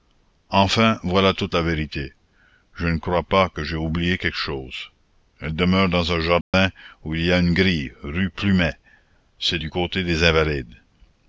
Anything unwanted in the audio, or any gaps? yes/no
yes